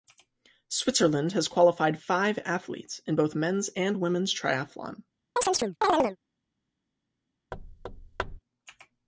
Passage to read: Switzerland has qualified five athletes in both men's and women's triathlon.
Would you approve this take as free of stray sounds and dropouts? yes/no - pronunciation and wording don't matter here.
no